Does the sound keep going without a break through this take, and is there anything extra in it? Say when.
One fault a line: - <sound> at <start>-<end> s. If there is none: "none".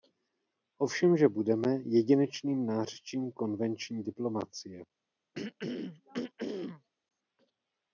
- throat clearing at 5.3-6.9 s